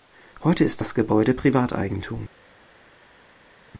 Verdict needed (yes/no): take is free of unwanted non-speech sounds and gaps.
yes